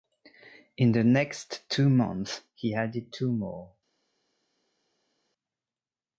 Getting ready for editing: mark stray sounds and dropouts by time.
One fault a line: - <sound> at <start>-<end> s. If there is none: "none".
none